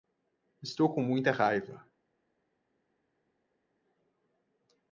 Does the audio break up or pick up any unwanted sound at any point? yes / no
no